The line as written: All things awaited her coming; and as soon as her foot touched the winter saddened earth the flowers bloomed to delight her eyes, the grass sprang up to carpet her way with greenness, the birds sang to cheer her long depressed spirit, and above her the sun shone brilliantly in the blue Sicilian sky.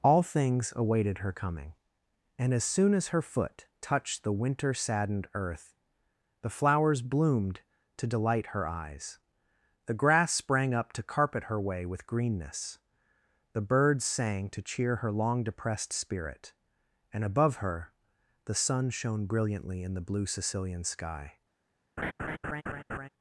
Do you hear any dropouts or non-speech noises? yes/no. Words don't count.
yes